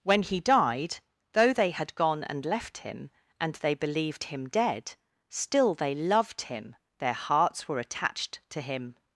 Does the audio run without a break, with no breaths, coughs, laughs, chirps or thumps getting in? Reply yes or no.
yes